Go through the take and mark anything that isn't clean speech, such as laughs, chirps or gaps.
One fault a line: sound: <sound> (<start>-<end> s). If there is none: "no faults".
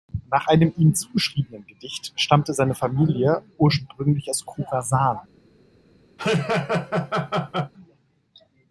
sound: laugh (6.2-7.7 s)